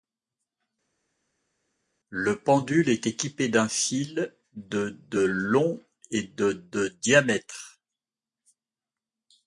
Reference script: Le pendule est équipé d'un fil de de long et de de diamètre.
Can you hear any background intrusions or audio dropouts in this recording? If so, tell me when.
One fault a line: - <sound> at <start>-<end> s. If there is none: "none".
none